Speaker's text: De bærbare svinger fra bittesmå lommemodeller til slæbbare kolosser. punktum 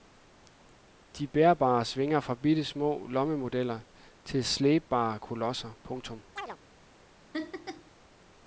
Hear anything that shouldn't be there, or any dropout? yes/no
yes